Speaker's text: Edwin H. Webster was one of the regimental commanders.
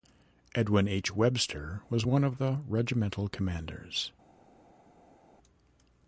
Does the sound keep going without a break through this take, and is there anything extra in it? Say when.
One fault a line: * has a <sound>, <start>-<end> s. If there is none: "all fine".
all fine